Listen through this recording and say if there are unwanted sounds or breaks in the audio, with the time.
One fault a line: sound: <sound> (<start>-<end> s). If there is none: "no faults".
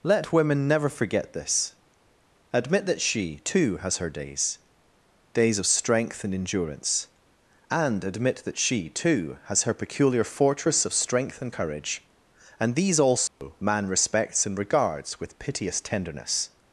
sound: dropout (13.3-13.4 s)